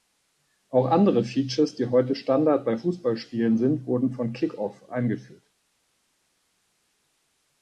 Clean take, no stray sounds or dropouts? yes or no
yes